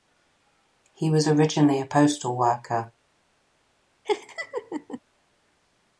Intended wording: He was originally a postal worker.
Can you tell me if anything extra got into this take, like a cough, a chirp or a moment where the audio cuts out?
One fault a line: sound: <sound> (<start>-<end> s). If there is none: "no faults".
sound: laugh (4.0-5.0 s)